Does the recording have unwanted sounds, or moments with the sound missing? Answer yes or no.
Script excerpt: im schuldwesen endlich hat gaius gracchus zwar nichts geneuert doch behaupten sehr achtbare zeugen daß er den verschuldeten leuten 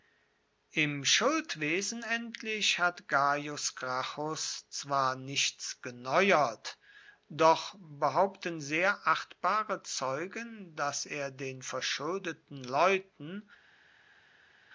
no